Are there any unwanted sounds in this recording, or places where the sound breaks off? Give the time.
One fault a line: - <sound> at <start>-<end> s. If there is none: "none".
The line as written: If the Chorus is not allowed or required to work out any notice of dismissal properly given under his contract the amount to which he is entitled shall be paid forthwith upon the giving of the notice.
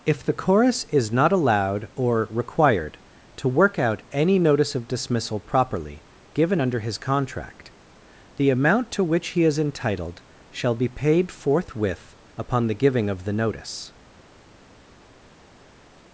none